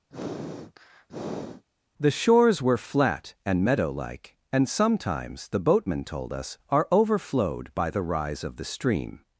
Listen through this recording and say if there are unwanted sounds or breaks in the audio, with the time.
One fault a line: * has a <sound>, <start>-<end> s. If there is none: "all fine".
* has a sniff, 0.1-1.6 s